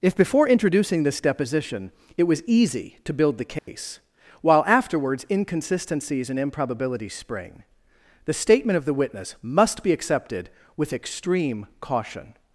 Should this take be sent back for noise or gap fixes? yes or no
yes